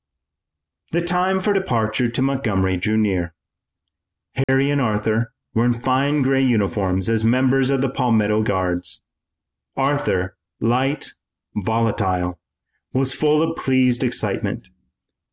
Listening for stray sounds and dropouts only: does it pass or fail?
fail